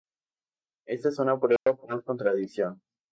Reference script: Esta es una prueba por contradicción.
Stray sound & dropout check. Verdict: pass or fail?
fail